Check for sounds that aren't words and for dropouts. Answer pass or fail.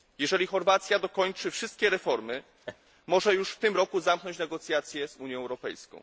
fail